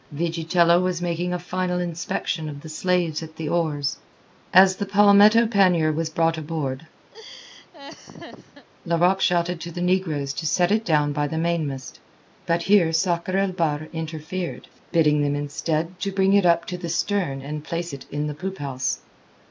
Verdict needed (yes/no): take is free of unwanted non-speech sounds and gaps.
no